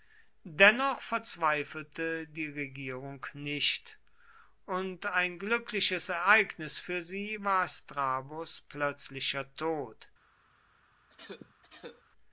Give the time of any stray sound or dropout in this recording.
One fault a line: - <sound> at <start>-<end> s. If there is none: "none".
- cough at 11.1-12.0 s